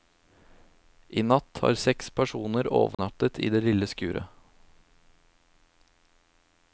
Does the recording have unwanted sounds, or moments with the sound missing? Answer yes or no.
yes